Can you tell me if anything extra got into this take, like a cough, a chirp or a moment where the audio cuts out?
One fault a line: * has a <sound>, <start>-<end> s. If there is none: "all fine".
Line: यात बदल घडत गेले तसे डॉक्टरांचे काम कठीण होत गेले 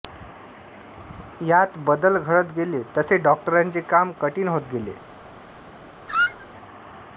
* has a squeak, 6.1-6.5 s